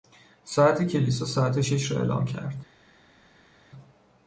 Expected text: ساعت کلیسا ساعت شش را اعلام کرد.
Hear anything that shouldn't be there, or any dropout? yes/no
no